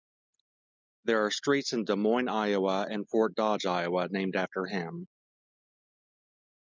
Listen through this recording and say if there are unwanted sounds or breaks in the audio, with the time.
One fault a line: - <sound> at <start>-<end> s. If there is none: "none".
none